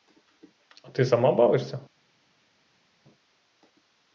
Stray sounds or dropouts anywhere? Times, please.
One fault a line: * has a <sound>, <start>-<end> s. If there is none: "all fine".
all fine